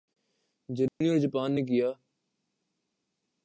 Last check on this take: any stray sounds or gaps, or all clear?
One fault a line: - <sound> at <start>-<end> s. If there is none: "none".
- dropout at 0.9-1.0 s